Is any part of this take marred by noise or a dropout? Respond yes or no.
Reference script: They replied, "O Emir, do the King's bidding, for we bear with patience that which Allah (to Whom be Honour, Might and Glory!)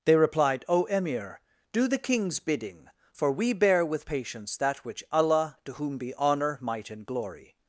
no